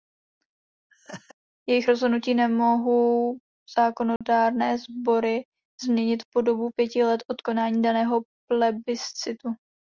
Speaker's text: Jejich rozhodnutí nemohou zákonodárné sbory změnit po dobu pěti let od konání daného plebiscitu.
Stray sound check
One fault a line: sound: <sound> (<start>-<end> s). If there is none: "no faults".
sound: laugh (0.9-1.3 s)
sound: dropout (4.2-4.2 s)